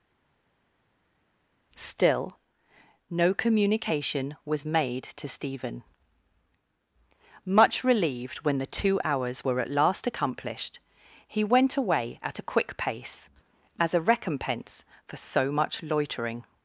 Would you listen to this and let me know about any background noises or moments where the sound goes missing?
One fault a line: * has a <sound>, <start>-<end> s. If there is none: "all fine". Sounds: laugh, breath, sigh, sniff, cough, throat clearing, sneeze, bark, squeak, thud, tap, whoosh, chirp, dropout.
all fine